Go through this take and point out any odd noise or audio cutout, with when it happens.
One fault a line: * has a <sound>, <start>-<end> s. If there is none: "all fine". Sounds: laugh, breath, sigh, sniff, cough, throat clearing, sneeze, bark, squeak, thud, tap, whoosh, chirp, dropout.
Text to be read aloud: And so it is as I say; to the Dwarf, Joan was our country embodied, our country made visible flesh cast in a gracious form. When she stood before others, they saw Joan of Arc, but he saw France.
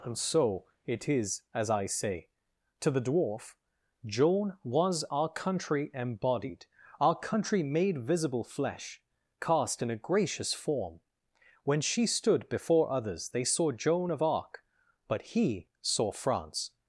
all fine